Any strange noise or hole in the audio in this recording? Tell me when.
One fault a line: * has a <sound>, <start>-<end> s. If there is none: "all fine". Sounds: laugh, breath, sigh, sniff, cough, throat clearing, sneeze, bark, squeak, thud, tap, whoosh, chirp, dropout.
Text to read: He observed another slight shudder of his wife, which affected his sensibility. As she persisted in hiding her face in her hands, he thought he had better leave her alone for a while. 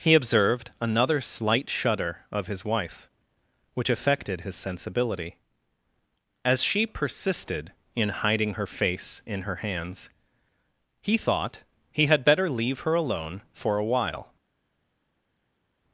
all fine